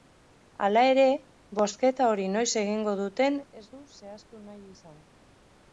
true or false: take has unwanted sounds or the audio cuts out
false